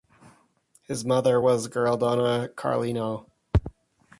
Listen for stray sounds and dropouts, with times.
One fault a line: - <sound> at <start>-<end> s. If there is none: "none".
none